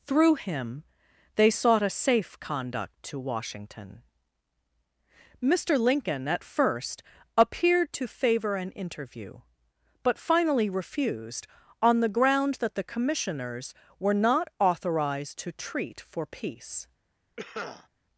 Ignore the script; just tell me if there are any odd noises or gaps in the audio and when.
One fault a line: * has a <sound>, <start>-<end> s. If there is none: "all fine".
* has a cough, 17.4-17.9 s